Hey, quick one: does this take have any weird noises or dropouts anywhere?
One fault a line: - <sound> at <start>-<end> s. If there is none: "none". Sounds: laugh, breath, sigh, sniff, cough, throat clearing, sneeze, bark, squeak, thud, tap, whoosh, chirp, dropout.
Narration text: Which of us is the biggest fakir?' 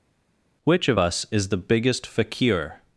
none